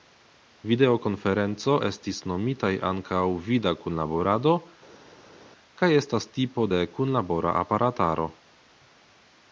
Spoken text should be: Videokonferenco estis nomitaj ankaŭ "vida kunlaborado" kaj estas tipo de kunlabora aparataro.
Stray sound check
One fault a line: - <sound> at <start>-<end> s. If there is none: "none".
none